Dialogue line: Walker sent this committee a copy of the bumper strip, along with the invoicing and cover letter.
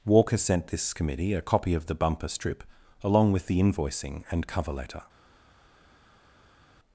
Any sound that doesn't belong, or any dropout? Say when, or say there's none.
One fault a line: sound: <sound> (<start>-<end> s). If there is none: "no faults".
no faults